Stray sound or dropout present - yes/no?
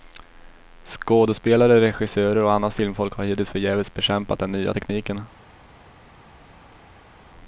no